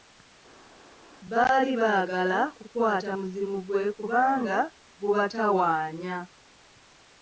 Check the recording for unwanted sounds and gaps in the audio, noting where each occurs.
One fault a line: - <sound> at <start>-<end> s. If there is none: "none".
none